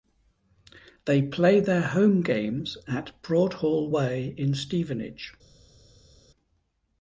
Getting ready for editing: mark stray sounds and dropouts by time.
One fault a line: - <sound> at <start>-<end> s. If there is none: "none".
none